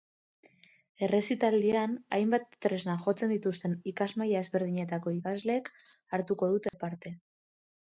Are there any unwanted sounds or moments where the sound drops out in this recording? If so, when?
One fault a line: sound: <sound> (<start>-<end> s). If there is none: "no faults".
sound: dropout (6.7-6.7 s)